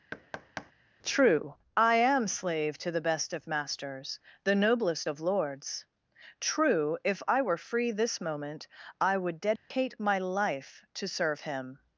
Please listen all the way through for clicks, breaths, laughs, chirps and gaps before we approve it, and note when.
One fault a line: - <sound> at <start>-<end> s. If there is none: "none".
- thud at 0.1-0.7 s
- dropout at 9.6-9.7 s